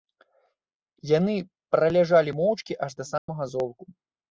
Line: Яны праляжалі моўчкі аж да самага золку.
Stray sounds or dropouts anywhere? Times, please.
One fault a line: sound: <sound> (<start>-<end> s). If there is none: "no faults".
sound: dropout (3.2-3.3 s)